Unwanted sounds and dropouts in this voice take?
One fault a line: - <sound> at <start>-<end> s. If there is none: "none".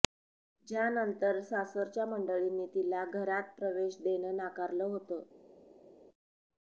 none